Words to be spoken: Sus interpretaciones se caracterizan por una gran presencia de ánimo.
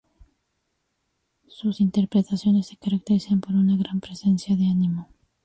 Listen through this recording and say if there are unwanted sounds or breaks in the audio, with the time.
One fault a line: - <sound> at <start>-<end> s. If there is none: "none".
none